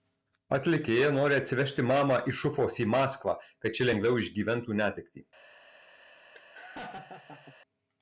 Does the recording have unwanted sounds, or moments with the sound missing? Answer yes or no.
yes